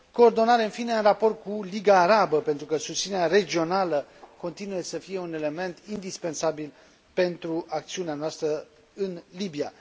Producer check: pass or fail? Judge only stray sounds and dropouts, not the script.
pass